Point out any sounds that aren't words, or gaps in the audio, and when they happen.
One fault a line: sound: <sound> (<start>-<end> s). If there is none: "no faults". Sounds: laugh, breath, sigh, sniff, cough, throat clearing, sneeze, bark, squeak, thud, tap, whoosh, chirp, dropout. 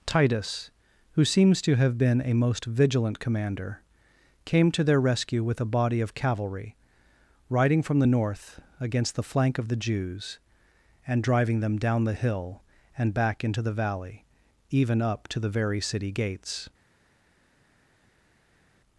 no faults